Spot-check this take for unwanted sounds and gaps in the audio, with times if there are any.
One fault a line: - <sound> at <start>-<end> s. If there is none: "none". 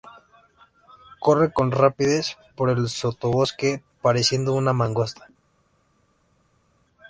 none